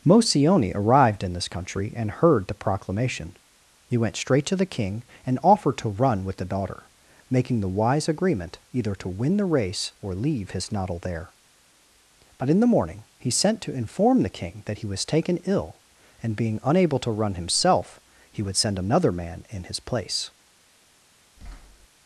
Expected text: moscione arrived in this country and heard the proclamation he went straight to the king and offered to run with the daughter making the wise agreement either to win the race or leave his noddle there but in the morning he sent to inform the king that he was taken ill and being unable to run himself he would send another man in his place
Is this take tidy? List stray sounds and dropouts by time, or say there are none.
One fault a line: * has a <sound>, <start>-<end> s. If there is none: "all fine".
* has a thud, 21.4-21.9 s